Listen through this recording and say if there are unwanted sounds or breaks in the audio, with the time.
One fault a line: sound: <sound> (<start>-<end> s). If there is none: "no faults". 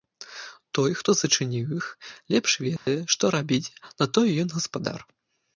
sound: dropout (2.8-2.9 s)